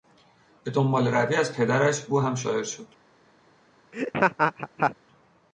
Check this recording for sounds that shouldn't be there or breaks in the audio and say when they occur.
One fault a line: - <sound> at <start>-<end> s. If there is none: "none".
- laugh at 3.9-5.0 s